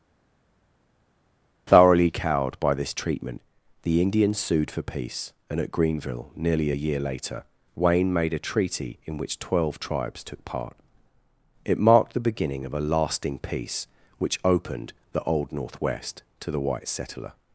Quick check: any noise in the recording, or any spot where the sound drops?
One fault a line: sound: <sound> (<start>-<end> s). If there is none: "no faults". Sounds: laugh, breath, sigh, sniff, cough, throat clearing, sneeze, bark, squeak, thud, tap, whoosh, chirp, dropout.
no faults